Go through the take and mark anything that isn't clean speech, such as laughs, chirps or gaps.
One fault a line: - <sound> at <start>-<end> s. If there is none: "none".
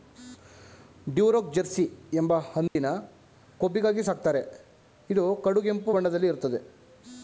- dropout at 2.7-2.8 s